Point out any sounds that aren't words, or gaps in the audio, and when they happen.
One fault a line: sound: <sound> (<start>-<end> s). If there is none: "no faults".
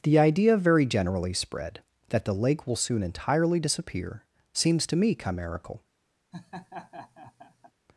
sound: laugh (6.3-7.7 s)